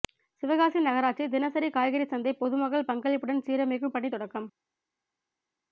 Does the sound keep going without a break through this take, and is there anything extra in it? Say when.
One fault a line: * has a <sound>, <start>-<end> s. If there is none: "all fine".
all fine